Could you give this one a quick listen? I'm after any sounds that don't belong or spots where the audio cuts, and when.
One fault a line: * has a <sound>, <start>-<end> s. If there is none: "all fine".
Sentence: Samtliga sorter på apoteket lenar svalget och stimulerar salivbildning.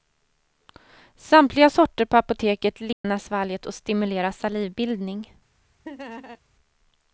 * has a dropout, 2.9-3.0 s
* has a laugh, 5.8-6.4 s